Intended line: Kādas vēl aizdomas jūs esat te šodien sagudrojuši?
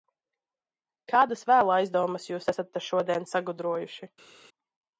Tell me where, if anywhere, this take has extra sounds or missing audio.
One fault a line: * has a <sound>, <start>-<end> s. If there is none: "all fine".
all fine